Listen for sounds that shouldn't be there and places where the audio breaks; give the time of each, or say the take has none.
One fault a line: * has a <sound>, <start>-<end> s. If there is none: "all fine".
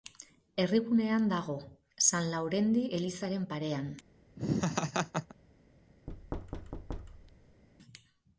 * has a laugh, 4.4-5.3 s
* has a thud, 6.1-7.6 s